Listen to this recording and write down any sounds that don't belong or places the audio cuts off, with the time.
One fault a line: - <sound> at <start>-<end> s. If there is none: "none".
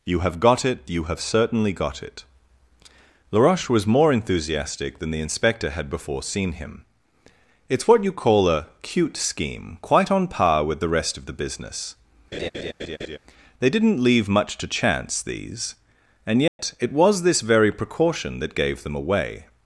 - laugh at 12.3-13.2 s
- dropout at 16.5-16.6 s